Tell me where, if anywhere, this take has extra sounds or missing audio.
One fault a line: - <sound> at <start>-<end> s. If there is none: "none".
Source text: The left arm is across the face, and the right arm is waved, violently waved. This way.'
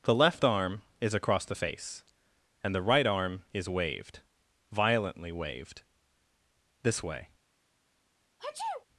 - sneeze at 8.4-8.9 s